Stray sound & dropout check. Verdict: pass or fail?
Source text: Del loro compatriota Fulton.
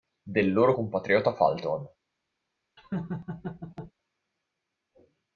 fail